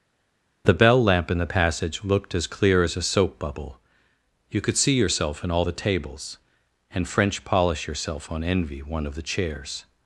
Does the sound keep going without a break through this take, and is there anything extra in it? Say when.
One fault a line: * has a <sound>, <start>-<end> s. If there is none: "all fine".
all fine